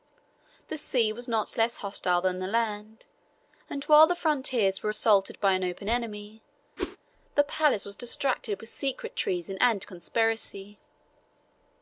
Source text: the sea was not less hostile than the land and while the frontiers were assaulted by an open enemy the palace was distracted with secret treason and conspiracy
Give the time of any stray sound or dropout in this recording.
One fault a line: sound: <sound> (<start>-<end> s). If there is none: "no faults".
sound: whoosh (6.8-7.0 s)